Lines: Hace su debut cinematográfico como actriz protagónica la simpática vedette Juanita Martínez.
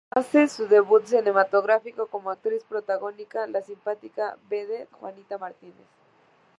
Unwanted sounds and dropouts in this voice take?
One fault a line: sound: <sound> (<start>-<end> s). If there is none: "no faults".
no faults